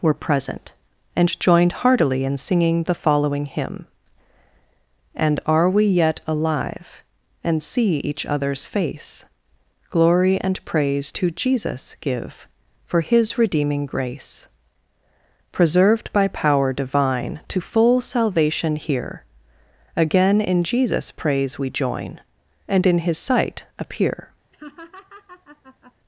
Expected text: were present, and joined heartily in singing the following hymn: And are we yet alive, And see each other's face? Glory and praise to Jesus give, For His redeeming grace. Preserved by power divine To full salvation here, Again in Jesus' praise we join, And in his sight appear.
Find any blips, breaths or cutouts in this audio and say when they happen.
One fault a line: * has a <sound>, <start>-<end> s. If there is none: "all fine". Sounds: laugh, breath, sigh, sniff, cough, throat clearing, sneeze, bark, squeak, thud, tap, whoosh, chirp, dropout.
* has a laugh, 24.5-25.9 s